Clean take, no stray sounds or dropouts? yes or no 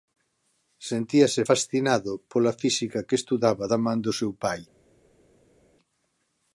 yes